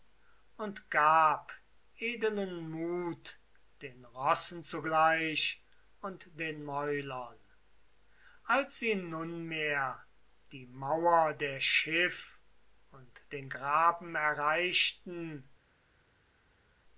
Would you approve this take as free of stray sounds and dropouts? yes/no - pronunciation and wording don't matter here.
yes